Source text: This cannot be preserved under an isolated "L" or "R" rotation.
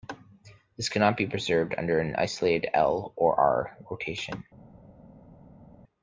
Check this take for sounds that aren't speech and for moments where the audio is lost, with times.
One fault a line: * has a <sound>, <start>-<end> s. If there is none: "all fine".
all fine